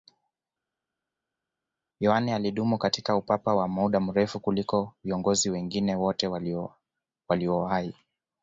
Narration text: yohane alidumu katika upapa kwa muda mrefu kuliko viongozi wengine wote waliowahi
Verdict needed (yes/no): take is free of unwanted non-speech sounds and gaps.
yes